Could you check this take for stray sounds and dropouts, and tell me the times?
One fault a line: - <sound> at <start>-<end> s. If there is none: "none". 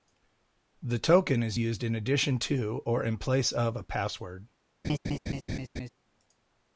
- laugh at 4.8-5.9 s